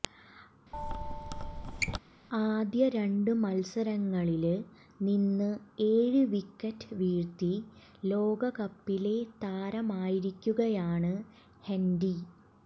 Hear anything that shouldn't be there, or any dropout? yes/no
yes